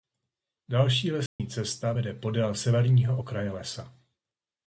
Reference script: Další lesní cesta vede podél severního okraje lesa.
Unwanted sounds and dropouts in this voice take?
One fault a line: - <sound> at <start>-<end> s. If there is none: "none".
- dropout at 1.3-1.4 s